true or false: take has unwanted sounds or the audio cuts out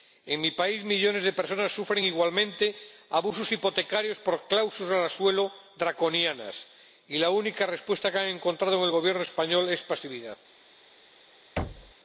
true